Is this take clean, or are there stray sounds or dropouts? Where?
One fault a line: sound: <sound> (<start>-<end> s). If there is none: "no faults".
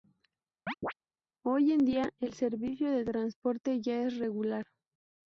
sound: chirp (0.7-0.9 s)